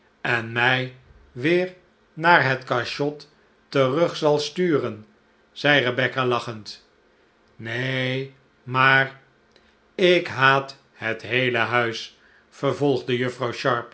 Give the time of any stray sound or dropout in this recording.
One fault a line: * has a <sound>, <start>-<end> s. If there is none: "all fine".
all fine